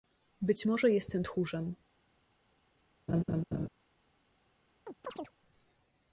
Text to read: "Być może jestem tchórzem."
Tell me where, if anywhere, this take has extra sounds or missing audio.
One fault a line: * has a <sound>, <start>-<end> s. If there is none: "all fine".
* has a laugh, 3.1-3.7 s
* has a chirp, 4.9-5.3 s